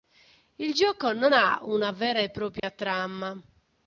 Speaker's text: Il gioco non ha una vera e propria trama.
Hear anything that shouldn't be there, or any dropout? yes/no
yes